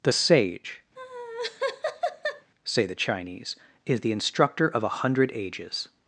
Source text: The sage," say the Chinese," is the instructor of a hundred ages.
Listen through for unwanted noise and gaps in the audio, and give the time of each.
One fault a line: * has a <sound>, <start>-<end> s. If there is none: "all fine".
* has a laugh, 1.0-2.5 s